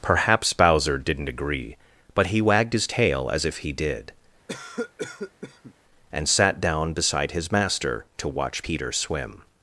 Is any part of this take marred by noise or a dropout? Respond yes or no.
yes